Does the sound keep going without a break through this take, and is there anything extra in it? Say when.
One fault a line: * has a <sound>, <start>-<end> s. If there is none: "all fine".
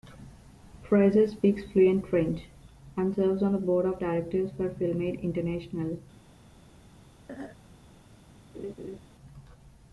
* has a throat clearing, 7.3-7.6 s
* has a laugh, 8.5-9.0 s